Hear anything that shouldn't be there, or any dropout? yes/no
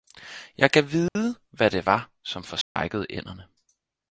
yes